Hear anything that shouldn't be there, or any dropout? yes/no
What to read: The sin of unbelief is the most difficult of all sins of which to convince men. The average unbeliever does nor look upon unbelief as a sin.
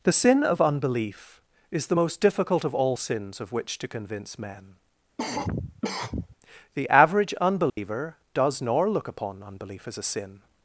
yes